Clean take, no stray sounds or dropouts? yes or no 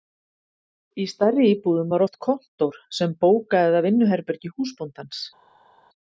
yes